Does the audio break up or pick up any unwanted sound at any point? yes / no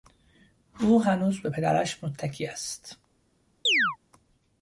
yes